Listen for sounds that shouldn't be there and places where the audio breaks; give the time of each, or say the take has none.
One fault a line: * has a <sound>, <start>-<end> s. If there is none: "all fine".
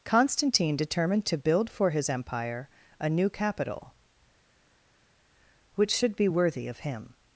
all fine